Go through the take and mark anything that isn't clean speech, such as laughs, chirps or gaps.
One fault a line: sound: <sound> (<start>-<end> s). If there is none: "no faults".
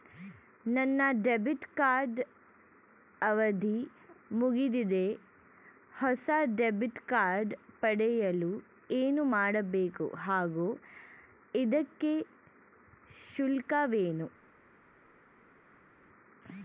no faults